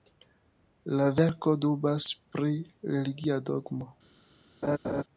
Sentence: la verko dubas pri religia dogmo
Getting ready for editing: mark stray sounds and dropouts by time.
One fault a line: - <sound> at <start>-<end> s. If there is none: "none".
- laugh at 4.6-5.0 s